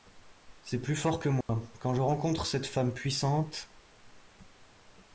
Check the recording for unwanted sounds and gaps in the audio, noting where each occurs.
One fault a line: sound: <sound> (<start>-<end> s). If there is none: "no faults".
sound: dropout (1.4-1.5 s)